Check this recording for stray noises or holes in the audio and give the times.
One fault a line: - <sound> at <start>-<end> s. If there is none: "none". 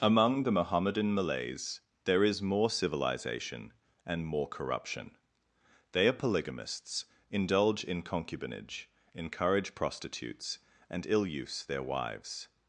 none